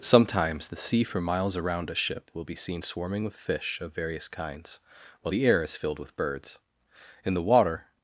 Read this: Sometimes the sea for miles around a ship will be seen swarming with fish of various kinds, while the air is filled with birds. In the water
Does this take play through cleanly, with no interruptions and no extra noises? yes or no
yes